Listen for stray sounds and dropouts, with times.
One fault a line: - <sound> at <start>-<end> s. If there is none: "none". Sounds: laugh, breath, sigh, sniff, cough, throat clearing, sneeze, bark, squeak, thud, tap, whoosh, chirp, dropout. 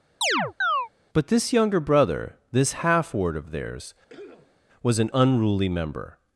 - chirp at 0.2-0.9 s
- cough at 4.1-4.6 s